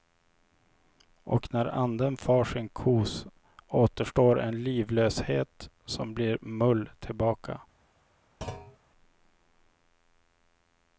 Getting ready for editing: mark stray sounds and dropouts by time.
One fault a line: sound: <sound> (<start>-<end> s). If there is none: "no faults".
sound: thud (8.4-8.8 s)